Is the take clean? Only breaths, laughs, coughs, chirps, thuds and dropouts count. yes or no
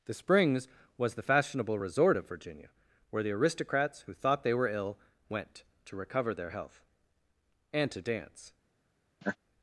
no